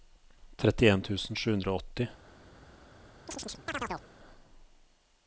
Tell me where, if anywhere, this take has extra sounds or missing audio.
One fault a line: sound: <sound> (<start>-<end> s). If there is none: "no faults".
sound: chirp (3.3-4.1 s)